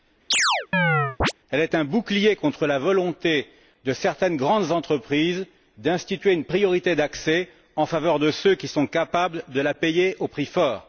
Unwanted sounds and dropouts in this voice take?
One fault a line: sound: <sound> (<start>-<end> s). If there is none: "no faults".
sound: chirp (0.3-1.3 s)